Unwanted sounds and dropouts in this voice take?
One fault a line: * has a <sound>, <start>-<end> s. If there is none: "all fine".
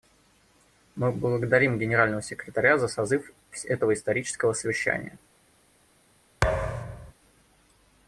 * has a thud, 6.4-7.1 s